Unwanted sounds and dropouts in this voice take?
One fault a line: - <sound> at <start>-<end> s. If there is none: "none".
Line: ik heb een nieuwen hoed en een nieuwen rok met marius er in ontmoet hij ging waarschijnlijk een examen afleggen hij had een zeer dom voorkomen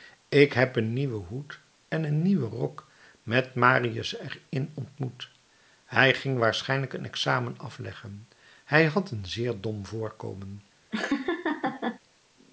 - laugh at 10.9-12.0 s